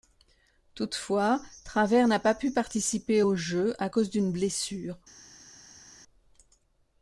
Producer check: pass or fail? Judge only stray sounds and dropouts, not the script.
pass